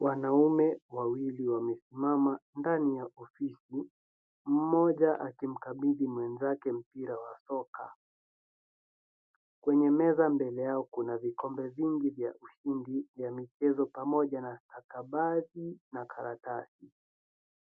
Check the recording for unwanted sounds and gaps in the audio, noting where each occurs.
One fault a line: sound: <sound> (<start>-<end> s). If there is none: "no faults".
no faults